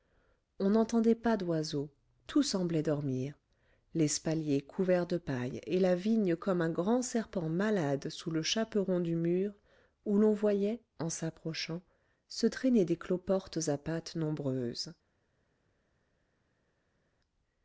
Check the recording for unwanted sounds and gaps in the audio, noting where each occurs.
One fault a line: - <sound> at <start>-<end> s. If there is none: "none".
none